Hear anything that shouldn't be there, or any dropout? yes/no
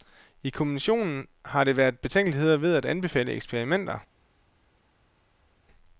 no